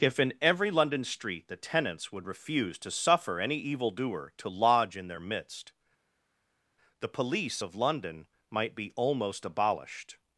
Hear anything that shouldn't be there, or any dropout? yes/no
no